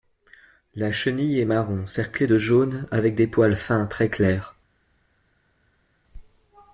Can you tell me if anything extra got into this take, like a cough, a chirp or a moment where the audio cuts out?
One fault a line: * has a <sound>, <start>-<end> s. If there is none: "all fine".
all fine